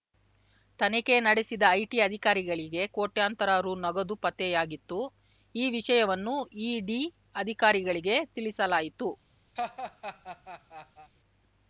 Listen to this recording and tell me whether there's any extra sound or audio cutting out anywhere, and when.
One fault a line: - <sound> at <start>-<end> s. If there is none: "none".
- laugh at 9.6-11.1 s